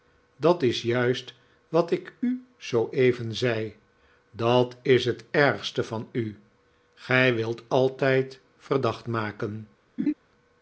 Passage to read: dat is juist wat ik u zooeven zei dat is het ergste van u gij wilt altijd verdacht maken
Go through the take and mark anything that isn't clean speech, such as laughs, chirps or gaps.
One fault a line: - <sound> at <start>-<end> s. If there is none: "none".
- laugh at 10.0-10.1 s